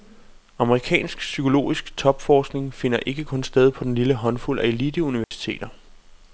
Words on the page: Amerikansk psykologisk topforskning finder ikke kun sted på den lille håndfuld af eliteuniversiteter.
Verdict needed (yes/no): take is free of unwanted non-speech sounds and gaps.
no